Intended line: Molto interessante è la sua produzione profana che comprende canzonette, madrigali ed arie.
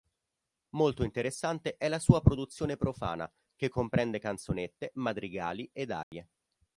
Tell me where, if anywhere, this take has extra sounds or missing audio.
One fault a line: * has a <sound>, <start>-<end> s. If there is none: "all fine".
* has a dropout, 6.0-6.1 s